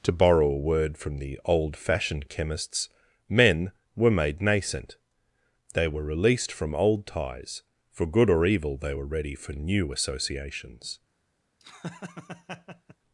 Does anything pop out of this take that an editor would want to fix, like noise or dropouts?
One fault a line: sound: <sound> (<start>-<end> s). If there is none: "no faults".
sound: laugh (11.6-13.0 s)